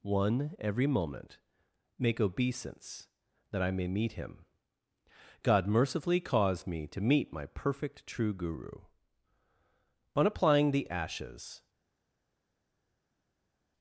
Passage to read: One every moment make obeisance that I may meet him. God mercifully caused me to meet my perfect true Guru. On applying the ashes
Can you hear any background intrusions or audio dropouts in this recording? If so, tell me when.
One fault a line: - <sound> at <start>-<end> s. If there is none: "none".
none